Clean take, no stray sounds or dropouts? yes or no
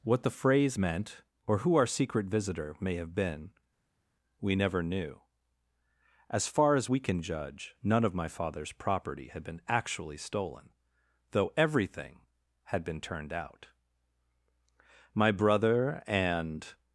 yes